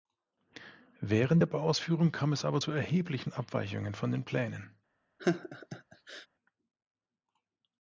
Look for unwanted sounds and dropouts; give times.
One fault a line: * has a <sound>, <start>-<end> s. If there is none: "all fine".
* has a laugh, 5.2-6.3 s